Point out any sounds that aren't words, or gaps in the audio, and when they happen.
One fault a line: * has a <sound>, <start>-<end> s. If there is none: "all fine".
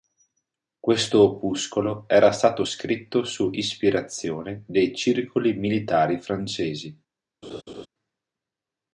* has a laugh, 7.4-7.9 s